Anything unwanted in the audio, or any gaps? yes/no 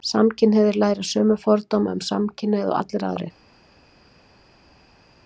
no